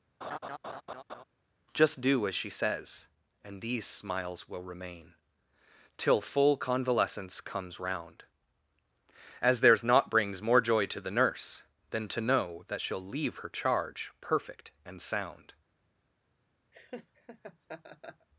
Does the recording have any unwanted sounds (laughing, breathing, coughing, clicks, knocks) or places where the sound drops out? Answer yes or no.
yes